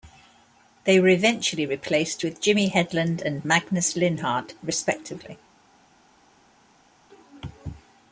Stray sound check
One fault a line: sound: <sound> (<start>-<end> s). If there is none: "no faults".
no faults